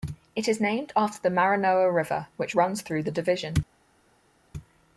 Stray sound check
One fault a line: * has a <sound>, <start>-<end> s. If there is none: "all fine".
all fine